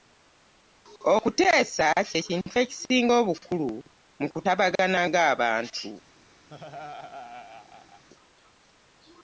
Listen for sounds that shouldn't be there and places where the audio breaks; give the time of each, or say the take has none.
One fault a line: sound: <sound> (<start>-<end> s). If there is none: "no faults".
sound: laugh (6.5-8.0 s)